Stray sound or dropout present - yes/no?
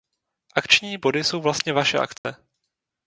yes